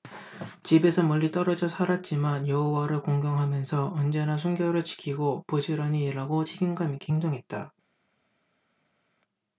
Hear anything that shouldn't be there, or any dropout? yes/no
no